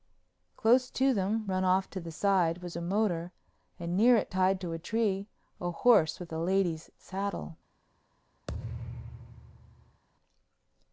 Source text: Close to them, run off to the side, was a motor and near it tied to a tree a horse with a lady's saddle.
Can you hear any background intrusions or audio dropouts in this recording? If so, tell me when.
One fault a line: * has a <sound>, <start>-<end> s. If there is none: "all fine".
* has a thud, 8.5-10.0 s